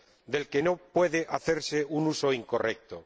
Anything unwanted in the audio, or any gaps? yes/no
no